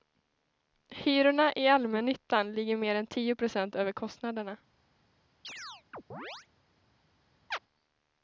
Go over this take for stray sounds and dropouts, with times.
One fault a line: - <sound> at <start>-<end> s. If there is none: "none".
- chirp at 5.4-6.5 s
- chirp at 7.5-7.6 s